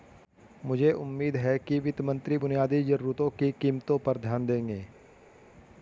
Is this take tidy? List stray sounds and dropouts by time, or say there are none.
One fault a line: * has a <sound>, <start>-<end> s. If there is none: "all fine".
all fine